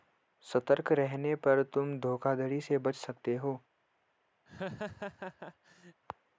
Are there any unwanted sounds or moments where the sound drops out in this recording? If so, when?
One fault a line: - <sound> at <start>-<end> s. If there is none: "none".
- laugh at 4.5-6.0 s